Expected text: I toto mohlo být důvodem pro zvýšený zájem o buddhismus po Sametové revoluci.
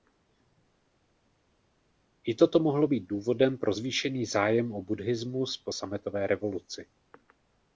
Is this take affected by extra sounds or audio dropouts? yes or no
no